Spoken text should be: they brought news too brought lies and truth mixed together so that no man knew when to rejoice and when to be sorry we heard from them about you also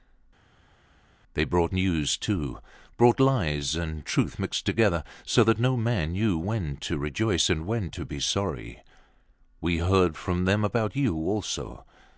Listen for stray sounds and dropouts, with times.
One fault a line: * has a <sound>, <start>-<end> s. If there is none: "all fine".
all fine